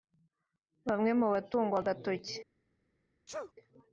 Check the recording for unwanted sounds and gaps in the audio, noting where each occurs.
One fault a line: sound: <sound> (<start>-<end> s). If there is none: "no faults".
sound: sneeze (3.3-3.5 s)